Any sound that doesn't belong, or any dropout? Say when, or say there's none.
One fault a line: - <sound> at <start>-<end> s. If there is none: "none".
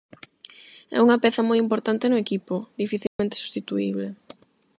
- dropout at 3.1-3.2 s